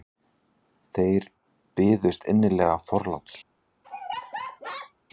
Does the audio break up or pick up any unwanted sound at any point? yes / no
yes